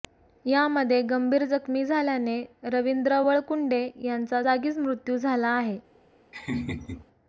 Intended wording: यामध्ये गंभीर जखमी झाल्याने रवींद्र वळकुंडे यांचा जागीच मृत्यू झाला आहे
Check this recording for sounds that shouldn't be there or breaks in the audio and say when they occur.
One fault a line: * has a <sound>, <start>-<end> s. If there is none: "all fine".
* has a laugh, 6.3-7.1 s